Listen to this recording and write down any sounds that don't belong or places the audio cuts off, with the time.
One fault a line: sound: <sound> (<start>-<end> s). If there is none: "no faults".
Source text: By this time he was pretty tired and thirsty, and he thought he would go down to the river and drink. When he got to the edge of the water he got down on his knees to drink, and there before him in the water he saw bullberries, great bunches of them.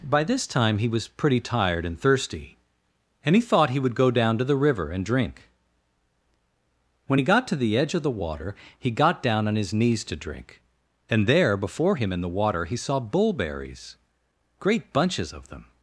no faults